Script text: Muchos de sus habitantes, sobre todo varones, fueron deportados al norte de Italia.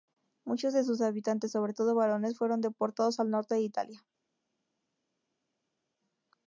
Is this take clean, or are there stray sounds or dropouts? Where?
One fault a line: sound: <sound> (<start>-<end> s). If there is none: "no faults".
no faults